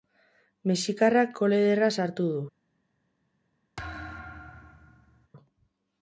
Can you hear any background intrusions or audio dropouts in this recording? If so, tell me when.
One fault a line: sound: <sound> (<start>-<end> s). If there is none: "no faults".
sound: thud (3.8-5.3 s)